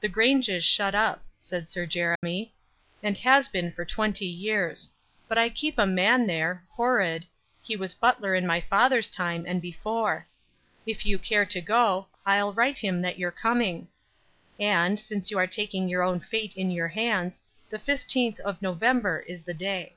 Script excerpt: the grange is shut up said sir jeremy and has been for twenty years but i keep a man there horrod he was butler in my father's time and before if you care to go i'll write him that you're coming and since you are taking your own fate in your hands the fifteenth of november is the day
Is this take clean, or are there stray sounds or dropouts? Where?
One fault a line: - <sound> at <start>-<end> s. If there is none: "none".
- dropout at 2.2-2.2 s